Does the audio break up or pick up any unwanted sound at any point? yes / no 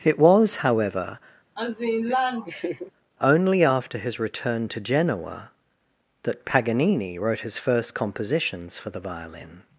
yes